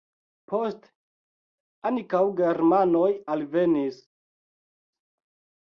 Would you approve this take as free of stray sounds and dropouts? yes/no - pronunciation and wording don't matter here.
yes